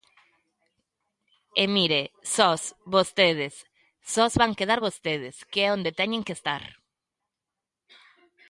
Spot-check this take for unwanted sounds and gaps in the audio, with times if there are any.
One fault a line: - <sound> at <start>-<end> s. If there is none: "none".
none